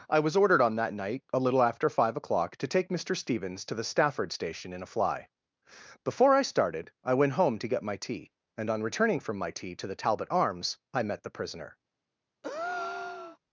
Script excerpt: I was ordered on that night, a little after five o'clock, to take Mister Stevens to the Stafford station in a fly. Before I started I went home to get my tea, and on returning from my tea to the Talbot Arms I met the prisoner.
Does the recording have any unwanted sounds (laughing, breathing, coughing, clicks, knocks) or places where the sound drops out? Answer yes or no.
yes